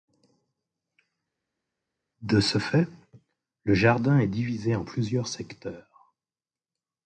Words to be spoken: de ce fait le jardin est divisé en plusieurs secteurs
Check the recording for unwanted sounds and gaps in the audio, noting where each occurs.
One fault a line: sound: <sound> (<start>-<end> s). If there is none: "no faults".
no faults